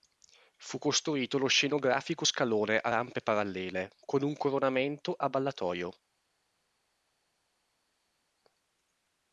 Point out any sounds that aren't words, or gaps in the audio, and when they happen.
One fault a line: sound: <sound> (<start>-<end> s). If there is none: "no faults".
no faults